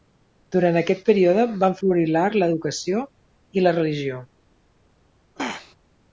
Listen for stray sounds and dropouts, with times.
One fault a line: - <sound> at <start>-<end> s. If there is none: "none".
- throat clearing at 5.4-5.8 s